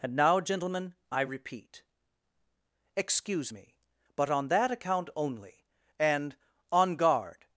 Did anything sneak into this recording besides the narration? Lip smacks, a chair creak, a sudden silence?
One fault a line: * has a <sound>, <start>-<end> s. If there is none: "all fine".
all fine